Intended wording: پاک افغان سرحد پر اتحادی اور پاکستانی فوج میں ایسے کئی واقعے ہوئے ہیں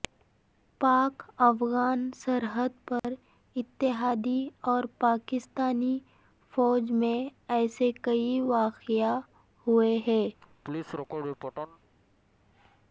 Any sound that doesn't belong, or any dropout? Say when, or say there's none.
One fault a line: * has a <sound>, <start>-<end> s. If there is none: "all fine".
* has a dropout, 3.0-3.0 s
* has a laugh, 10.4-11.8 s